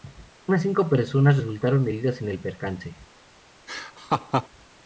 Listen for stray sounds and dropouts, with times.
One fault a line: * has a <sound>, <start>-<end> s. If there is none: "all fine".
* has a laugh, 3.7-4.5 s